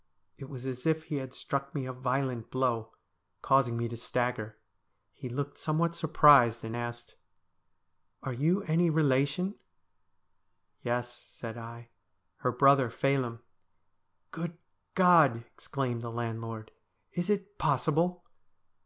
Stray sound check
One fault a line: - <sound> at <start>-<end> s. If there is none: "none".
none